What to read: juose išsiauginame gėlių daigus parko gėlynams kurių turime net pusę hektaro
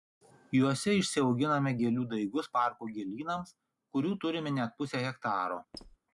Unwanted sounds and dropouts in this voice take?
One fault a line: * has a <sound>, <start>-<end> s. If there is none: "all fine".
* has a squeak, 5.7-6.0 s